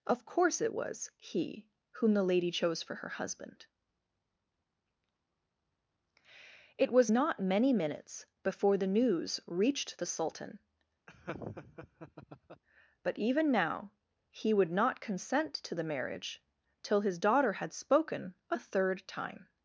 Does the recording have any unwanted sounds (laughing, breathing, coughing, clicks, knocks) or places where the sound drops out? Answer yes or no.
yes